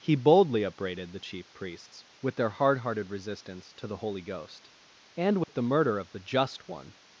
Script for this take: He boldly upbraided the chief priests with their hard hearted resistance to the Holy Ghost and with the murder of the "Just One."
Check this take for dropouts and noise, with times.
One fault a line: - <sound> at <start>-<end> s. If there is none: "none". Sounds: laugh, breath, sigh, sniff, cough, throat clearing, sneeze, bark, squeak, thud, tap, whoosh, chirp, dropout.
- dropout at 5.4-5.5 s